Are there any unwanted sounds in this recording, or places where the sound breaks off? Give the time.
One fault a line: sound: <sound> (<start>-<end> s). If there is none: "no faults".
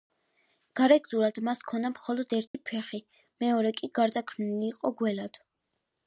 sound: dropout (2.5-2.5 s)